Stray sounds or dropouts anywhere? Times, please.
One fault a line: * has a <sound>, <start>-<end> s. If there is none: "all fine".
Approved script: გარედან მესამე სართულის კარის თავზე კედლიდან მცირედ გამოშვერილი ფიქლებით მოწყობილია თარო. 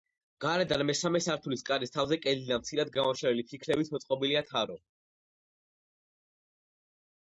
all fine